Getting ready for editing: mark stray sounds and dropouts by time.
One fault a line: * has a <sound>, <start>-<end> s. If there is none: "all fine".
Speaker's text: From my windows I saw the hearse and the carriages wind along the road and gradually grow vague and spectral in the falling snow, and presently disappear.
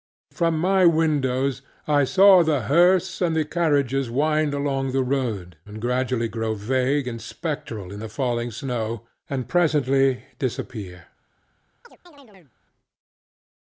* has a chirp, 11.8-12.5 s